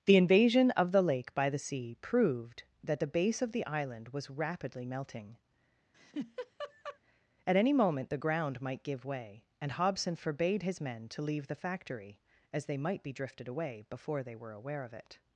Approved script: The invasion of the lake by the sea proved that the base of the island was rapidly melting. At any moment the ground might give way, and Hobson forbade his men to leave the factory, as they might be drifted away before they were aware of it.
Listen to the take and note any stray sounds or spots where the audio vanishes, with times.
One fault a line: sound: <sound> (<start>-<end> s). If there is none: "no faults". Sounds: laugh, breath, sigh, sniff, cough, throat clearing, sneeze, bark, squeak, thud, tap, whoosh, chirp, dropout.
sound: laugh (5.9-7.0 s)